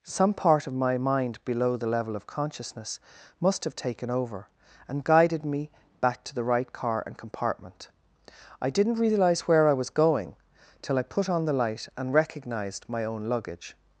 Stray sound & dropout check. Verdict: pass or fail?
pass